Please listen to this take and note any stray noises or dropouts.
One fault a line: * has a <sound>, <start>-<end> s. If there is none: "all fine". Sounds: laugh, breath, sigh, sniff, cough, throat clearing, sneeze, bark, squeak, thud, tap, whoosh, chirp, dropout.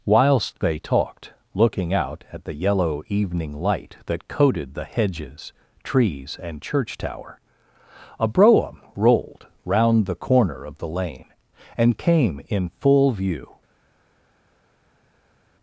all fine